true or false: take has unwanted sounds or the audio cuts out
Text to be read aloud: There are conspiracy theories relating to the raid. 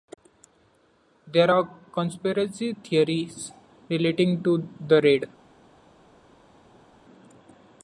false